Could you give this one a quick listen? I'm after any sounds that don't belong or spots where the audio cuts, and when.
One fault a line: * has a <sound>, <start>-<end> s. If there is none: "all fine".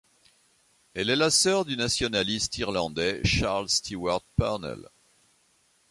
all fine